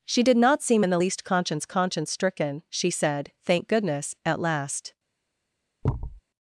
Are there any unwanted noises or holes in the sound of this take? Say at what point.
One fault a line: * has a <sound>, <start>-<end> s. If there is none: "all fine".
* has a thud, 5.8-6.2 s